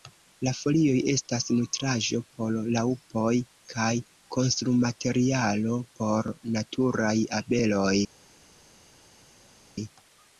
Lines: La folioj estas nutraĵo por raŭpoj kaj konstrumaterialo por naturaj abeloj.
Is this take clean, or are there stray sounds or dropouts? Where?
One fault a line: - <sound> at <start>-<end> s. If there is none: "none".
none